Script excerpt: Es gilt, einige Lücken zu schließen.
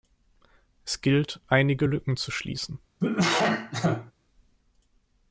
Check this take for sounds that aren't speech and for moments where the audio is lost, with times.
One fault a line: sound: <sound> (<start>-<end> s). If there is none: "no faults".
sound: cough (3.0-4.1 s)